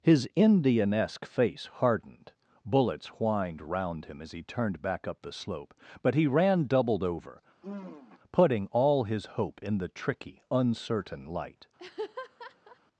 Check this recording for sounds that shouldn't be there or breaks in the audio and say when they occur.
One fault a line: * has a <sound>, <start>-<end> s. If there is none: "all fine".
* has a sigh, 7.6-8.2 s
* has a laugh, 11.8-12.8 s